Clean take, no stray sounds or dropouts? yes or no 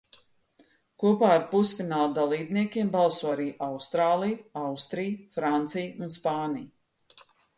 yes